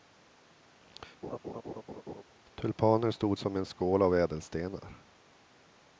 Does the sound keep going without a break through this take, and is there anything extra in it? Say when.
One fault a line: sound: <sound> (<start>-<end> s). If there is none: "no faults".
sound: laugh (1.2-2.2 s)